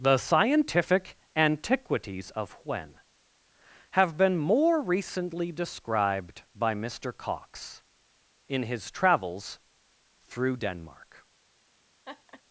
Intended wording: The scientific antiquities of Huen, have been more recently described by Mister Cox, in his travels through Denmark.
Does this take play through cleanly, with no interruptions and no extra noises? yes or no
no